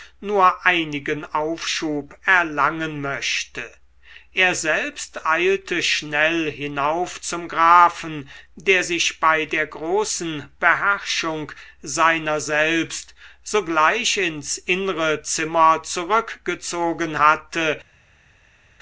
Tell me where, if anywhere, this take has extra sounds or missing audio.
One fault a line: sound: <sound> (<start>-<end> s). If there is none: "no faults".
no faults